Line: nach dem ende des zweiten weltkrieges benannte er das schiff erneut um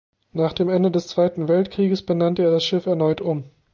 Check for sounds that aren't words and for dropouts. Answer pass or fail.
pass